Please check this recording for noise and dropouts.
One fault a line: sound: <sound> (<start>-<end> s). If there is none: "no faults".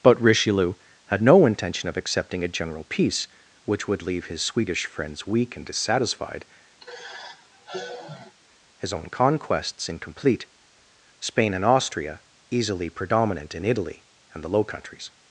sound: sigh (6.8-8.3 s)